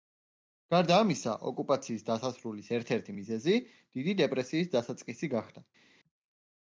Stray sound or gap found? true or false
false